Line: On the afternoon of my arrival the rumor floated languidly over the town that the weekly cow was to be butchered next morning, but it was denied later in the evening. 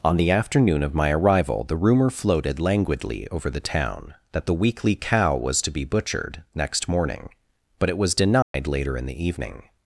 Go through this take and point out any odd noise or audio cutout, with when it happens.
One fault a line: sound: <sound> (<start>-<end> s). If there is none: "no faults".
sound: dropout (8.4-8.5 s)